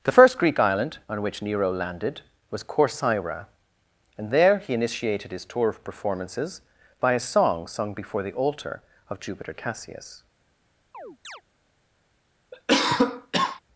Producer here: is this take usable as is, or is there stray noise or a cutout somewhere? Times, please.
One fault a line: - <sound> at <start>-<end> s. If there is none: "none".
- chirp at 10.9-11.4 s
- cough at 12.5-13.6 s